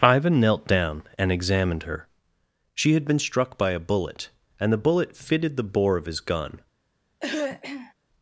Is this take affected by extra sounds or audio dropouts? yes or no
yes